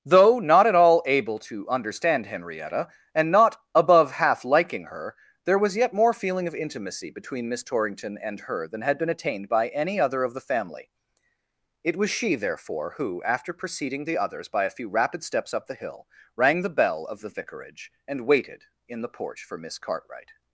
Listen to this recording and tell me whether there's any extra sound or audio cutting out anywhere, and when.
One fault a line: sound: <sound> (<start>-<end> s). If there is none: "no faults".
no faults